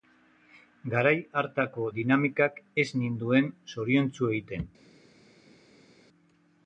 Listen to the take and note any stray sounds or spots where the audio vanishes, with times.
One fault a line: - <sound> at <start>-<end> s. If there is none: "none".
none